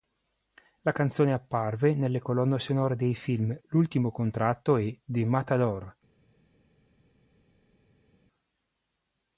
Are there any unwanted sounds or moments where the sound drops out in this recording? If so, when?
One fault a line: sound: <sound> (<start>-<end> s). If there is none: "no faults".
no faults